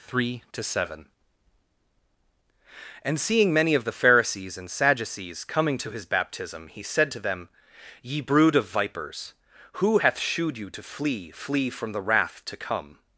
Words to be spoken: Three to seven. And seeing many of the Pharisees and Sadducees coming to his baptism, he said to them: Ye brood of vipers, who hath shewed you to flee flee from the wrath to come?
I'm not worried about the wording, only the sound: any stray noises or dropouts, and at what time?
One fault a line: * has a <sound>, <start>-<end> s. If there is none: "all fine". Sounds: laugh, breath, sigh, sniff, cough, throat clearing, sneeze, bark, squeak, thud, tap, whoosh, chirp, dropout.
all fine